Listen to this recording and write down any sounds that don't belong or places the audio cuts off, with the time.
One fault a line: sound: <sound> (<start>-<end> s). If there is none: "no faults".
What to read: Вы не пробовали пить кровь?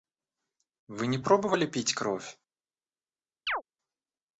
sound: chirp (3.5-3.6 s)